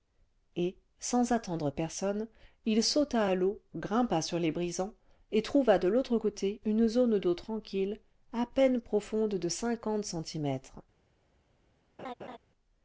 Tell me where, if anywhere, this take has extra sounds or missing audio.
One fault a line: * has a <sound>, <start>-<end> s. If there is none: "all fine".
* has a laugh, 12.0-12.4 s